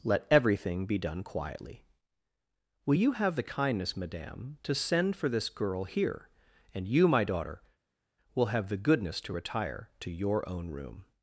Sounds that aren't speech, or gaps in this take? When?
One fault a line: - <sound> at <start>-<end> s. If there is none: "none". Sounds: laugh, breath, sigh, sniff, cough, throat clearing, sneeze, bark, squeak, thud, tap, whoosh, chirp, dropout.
none